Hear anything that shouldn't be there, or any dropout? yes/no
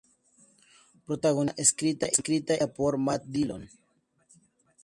no